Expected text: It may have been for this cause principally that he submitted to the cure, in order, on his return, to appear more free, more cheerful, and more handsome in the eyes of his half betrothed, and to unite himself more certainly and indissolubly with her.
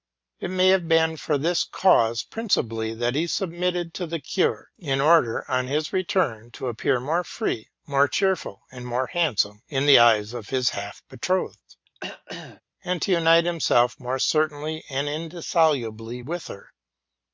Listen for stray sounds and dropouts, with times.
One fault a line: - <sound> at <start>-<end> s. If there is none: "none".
- throat clearing at 11.9-12.6 s